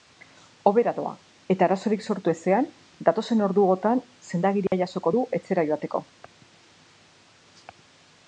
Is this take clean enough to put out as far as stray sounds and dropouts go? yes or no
no